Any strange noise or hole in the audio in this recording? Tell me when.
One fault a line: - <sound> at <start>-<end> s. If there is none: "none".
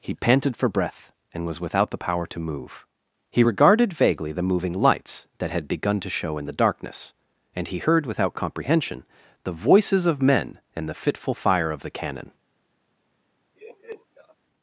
- laugh at 13.6-14.4 s